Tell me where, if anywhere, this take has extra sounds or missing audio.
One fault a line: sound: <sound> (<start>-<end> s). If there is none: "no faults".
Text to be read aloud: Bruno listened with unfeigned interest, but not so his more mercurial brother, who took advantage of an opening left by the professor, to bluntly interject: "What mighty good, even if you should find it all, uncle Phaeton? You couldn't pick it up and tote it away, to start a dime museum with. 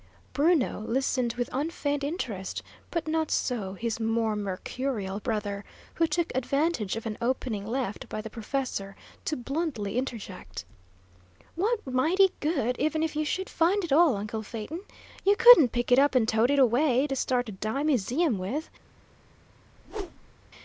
sound: whoosh (19.8-20.3 s)